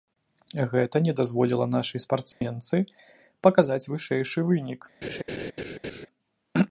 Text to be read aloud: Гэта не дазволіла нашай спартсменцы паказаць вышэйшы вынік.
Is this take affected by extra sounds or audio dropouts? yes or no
yes